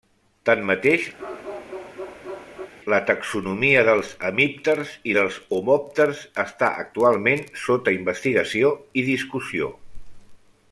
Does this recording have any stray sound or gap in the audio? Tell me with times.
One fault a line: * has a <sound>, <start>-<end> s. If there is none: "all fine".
* has a bark, 1.2-2.7 s